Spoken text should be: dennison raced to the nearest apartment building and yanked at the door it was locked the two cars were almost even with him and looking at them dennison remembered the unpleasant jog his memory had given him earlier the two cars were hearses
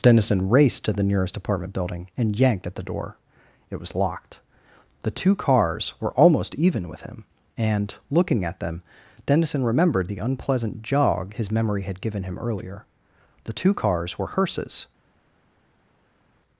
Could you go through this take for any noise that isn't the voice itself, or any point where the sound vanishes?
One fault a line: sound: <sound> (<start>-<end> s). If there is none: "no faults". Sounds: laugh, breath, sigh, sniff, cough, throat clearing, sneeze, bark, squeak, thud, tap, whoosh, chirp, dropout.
no faults